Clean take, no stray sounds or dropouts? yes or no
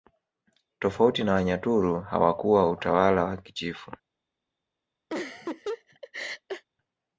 no